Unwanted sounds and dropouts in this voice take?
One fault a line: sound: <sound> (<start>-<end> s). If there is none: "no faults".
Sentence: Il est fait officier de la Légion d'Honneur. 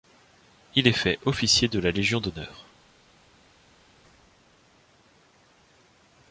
no faults